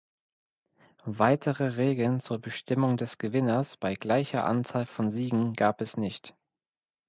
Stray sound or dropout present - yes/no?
no